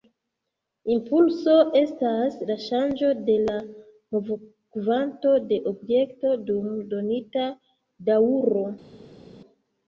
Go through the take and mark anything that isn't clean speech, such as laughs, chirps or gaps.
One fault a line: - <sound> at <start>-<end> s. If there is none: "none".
none